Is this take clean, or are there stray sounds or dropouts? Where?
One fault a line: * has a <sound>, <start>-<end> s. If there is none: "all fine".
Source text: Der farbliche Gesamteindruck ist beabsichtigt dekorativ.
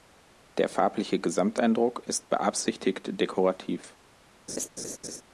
* has a laugh, 4.5-5.2 s